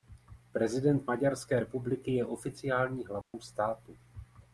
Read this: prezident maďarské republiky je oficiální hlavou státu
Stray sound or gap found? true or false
true